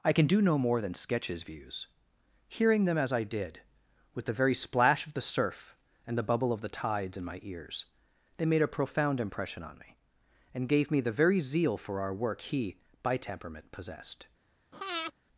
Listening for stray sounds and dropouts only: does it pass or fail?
fail